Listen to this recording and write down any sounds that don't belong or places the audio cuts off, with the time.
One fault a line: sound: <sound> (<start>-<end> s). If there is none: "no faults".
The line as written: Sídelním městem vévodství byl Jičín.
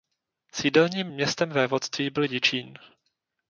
no faults